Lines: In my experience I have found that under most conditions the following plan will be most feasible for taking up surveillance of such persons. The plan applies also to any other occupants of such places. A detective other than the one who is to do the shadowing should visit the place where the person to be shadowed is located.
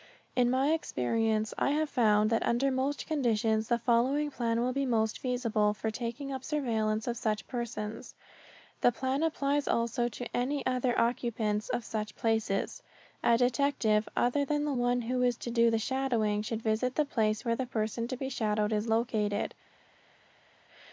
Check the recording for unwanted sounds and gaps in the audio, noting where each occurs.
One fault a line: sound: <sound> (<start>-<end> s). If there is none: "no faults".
no faults